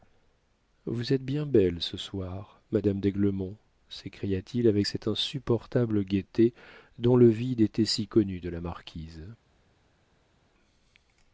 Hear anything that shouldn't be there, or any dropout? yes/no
no